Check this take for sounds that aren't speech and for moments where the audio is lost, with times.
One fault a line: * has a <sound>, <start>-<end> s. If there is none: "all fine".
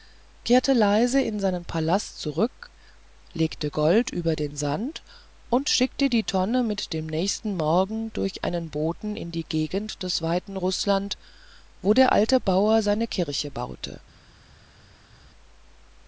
all fine